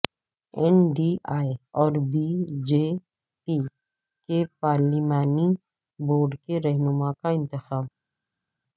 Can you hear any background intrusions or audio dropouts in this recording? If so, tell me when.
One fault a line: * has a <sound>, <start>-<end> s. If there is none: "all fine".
all fine